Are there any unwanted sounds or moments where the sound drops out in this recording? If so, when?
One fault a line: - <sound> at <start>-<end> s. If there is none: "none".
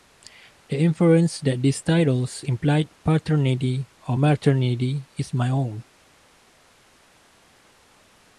none